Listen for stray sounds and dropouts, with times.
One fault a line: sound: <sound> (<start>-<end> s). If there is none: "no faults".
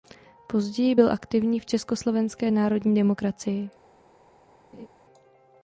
sound: laugh (4.7-4.9 s)